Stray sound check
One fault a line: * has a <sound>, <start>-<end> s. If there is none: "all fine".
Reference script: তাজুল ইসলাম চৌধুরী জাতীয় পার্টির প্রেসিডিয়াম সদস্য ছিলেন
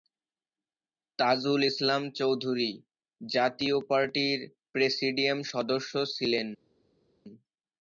all fine